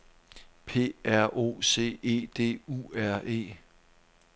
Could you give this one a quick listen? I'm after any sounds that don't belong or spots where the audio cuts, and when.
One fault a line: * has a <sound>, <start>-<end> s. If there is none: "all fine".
all fine